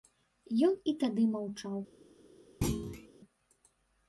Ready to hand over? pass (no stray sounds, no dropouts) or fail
fail